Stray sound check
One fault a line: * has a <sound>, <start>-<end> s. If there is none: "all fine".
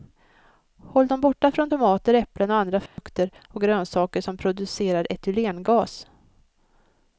* has a dropout, 2.9-3.0 s